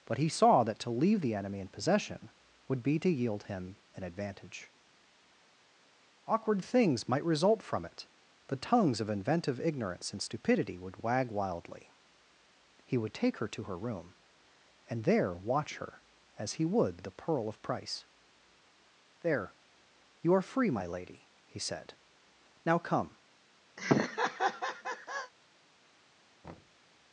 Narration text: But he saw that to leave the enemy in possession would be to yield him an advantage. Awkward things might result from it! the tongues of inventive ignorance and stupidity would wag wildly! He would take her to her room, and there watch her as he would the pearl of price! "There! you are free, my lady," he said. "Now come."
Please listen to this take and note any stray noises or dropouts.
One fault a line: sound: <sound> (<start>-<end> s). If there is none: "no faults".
sound: laugh (23.8-25.3 s)
sound: thud (26.4-26.8 s)